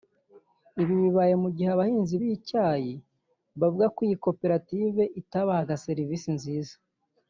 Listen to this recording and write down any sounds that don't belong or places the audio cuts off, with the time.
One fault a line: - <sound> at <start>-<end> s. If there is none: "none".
none